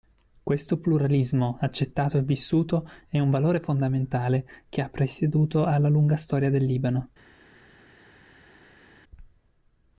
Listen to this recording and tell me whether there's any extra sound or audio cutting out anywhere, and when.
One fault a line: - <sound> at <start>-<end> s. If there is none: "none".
none